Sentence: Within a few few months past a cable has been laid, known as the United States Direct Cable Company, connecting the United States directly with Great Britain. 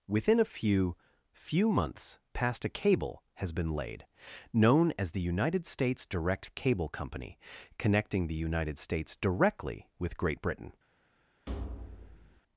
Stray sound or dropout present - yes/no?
yes